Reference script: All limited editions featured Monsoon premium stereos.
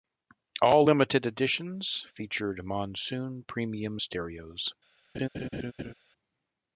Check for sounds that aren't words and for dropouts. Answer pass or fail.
fail